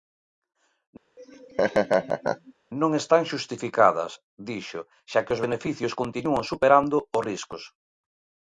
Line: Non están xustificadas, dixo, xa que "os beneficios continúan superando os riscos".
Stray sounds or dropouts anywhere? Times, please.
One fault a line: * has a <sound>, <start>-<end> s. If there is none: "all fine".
* has a laugh, 1.2-2.5 s